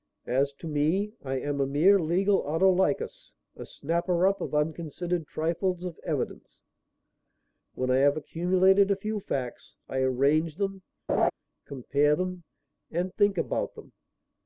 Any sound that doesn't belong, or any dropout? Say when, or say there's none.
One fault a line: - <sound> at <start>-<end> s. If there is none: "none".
- laugh at 11.1-11.3 s